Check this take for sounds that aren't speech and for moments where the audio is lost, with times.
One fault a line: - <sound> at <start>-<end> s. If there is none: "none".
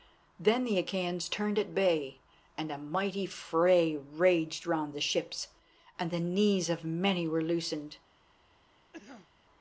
- cough at 8.9-9.3 s